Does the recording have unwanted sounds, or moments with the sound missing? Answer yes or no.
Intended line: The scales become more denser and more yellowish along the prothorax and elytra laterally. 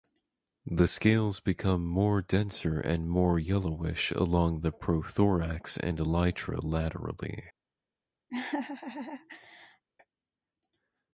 yes